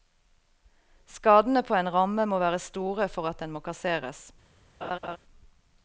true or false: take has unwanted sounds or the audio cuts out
true